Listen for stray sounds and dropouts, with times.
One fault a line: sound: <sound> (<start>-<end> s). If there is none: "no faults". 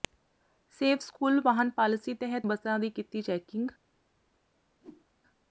sound: whoosh (4.8-5.1 s)